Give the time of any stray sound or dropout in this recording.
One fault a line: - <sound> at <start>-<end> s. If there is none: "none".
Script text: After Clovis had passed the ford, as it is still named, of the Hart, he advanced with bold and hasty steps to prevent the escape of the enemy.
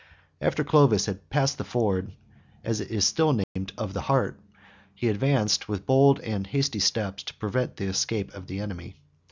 - dropout at 3.4-3.6 s